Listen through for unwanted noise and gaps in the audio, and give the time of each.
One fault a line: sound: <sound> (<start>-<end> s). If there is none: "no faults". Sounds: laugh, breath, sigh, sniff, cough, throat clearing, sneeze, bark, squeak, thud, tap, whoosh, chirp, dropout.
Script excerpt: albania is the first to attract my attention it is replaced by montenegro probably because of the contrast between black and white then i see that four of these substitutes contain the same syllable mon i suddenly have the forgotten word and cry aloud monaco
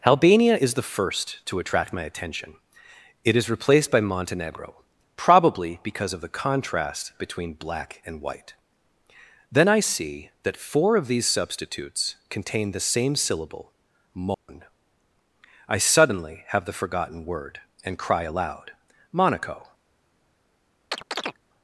sound: dropout (14.3-14.5 s)
sound: chirp (20.9-21.4 s)